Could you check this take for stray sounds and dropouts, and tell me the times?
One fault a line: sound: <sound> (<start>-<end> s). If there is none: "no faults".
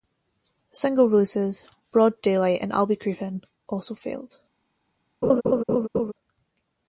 sound: laugh (5.2-6.1 s)